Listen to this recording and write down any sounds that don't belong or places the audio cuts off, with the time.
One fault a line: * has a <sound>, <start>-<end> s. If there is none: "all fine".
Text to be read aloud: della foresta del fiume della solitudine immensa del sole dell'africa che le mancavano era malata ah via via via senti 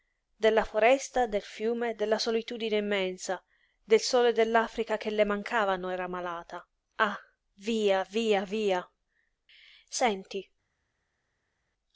all fine